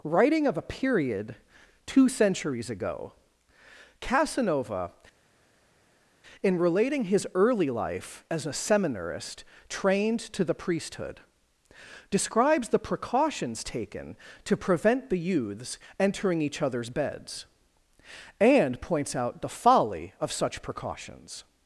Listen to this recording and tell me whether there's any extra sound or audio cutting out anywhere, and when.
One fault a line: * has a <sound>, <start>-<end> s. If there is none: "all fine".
all fine